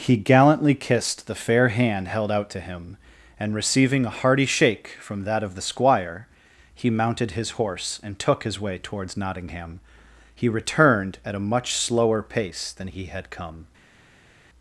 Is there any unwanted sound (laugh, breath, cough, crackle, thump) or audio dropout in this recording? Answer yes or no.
no